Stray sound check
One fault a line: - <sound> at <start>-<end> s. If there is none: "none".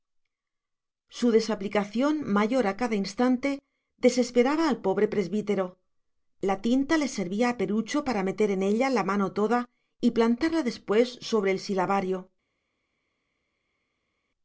none